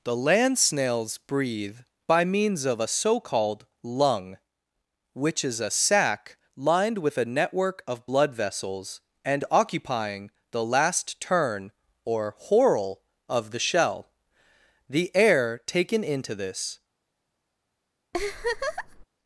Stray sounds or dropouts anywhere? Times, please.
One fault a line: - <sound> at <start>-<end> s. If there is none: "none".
- laugh at 18.1-19.1 s